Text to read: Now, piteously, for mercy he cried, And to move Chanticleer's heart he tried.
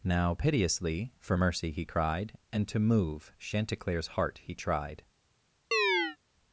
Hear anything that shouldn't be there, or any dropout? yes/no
yes